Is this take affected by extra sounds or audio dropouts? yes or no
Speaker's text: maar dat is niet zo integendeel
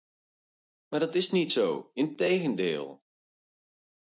no